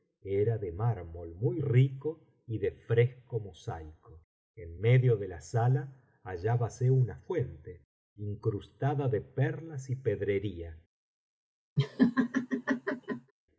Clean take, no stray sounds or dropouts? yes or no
no